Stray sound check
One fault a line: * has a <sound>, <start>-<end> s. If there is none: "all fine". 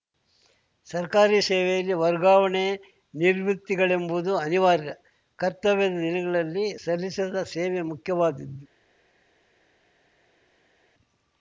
all fine